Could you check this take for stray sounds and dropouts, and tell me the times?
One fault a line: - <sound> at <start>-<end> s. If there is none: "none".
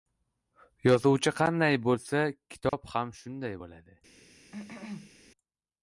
- dropout at 2.7-2.7 s
- cough at 4.5-5.1 s